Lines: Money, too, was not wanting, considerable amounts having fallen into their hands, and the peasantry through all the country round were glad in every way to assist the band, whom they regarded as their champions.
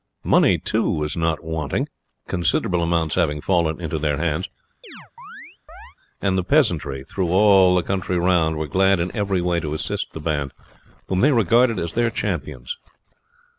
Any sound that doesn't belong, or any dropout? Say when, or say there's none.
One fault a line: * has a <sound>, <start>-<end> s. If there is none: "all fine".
* has a chirp, 4.8-6.0 s